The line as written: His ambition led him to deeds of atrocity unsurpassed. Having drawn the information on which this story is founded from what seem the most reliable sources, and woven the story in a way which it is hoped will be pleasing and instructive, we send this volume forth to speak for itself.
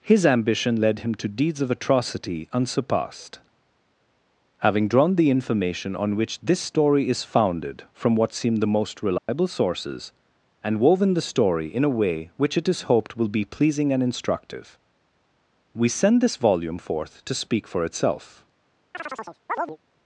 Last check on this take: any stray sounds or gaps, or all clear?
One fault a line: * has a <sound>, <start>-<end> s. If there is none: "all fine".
* has a dropout, 9.2-9.3 s
* has a chirp, 18.9-19.8 s